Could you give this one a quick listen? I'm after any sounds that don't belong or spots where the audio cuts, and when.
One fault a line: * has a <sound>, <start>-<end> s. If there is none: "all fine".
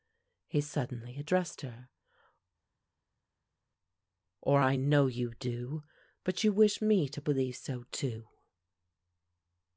all fine